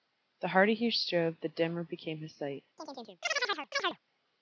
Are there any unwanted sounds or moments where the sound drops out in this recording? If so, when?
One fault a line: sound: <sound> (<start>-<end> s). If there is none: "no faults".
sound: chirp (2.8-4.0 s)